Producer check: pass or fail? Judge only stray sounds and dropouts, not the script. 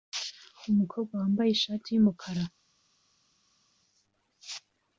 pass